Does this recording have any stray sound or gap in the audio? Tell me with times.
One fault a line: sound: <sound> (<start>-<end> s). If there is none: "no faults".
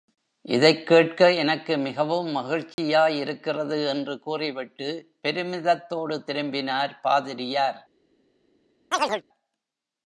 sound: dropout (2.7-2.8 s)
sound: chirp (8.9-9.2 s)